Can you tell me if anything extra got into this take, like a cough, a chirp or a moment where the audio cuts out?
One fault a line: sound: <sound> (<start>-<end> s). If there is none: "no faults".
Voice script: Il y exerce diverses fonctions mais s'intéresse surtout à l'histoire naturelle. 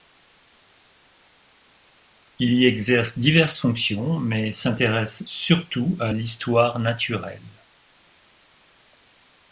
no faults